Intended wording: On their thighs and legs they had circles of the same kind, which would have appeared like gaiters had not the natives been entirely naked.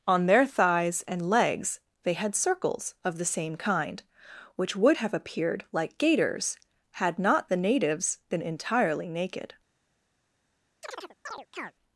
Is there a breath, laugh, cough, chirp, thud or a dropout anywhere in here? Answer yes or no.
yes